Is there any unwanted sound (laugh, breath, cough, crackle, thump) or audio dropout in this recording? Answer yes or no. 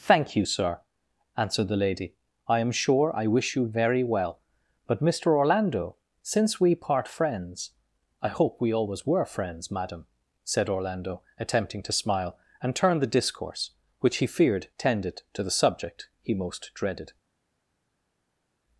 no